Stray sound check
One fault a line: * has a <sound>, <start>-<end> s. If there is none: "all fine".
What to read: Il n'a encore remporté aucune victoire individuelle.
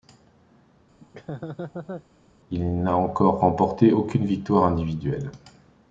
* has a laugh, 1.0-2.1 s